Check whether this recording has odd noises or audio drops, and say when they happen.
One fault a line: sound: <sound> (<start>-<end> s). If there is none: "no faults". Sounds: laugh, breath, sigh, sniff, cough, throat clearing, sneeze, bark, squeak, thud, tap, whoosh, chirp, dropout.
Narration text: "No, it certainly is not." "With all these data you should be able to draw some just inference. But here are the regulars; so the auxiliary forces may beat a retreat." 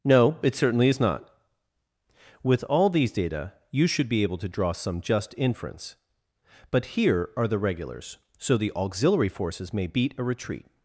no faults